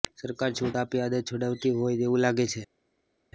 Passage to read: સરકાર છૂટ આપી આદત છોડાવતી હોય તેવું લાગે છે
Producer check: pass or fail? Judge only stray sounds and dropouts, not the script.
pass